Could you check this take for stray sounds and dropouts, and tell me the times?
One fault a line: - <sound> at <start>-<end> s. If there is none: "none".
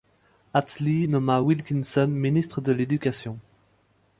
none